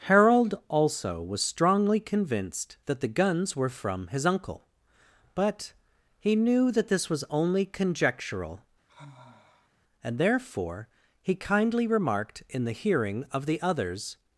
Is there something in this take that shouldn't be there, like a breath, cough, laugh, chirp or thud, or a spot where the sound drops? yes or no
yes